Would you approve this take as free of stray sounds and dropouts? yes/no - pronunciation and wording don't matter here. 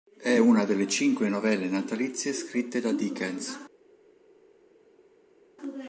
yes